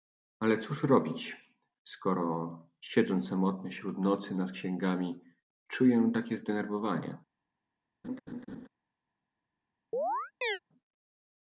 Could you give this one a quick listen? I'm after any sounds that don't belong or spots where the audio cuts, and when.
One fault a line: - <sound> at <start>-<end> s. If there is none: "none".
- laugh at 8.0-8.7 s
- chirp at 9.9-10.6 s